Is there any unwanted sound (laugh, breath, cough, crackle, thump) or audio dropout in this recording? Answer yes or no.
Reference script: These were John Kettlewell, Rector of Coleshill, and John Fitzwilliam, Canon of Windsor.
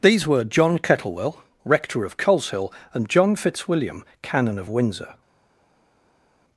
no